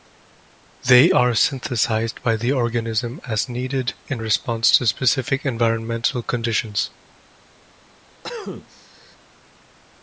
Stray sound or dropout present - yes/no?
yes